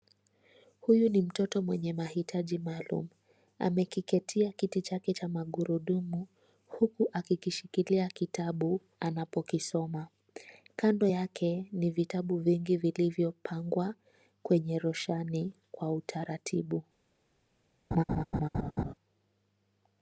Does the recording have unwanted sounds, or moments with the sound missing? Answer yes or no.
yes